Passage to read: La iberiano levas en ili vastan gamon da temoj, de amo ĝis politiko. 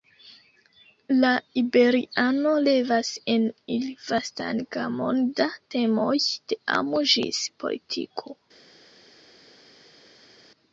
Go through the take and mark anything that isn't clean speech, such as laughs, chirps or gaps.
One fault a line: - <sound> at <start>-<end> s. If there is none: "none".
none